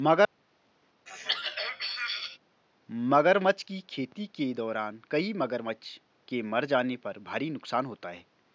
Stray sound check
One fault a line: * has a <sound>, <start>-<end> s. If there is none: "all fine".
* has a throat clearing, 1.1-2.4 s